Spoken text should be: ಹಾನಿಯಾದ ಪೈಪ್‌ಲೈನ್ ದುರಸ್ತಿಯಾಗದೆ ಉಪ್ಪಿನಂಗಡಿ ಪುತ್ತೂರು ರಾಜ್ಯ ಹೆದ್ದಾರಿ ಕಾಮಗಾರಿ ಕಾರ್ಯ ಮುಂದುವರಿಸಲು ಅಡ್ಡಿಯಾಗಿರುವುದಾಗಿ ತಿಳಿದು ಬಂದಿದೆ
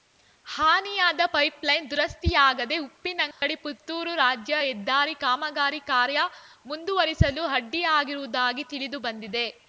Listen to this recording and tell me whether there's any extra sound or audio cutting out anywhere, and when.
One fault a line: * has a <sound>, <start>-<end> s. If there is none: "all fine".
* has a dropout, 3.3-3.4 s